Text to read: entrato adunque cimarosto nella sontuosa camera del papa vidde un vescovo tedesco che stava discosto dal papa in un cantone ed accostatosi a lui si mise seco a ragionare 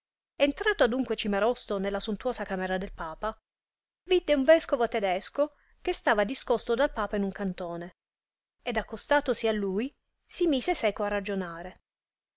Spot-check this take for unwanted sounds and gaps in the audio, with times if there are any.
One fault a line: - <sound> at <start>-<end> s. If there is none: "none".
none